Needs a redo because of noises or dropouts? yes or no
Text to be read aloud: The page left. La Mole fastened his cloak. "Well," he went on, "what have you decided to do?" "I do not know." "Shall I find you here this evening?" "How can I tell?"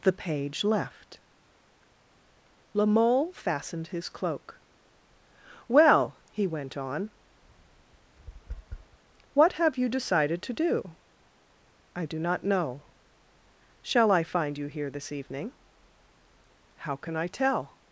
yes